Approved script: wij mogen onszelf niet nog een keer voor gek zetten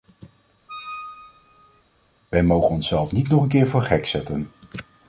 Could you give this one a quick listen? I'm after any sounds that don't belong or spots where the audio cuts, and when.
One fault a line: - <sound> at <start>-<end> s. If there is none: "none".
- squeak at 0.7-1.8 s